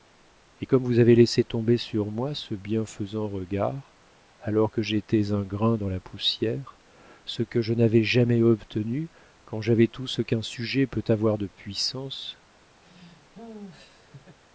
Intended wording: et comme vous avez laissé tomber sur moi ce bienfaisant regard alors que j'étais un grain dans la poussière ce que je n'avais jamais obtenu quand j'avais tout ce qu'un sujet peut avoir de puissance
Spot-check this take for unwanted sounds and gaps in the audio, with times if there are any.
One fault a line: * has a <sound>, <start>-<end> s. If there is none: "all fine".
* has a laugh, 12.8-14.4 s